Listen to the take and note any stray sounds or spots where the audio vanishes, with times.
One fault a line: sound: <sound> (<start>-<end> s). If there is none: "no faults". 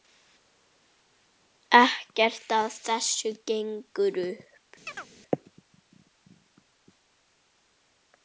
sound: chirp (4.9-5.1 s)